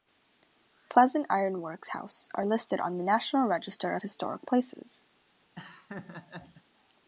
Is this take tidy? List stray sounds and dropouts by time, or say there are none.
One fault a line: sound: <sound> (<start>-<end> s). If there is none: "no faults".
sound: laugh (5.6-6.6 s)